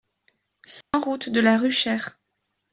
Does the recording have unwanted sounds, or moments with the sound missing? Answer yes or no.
yes